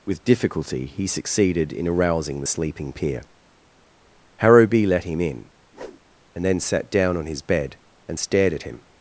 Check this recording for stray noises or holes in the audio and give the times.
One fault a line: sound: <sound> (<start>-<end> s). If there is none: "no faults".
sound: whoosh (5.7-6.0 s)